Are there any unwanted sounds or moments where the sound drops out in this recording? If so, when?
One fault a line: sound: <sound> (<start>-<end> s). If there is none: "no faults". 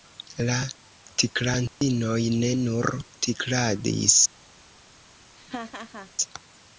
sound: dropout (1.7-1.8 s)
sound: laugh (5.4-6.1 s)